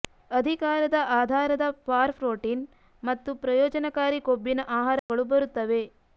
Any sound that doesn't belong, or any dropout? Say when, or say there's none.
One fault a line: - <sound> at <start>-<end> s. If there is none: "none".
- dropout at 5.0-5.1 s